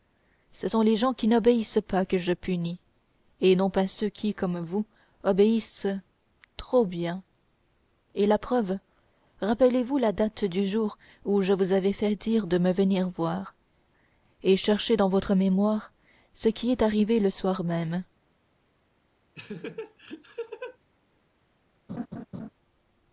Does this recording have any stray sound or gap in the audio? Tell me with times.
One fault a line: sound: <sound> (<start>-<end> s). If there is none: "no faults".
sound: laugh (19.3-20.8 s)
sound: laugh (21.9-22.5 s)